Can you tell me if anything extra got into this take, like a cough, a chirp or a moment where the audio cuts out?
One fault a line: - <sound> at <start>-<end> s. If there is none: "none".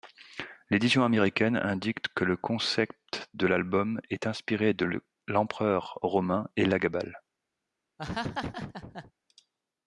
- laugh at 8.0-9.1 s